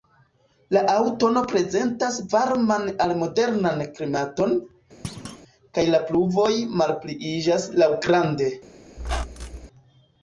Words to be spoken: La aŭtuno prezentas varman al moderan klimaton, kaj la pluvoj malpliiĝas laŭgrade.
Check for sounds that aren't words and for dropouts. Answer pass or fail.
fail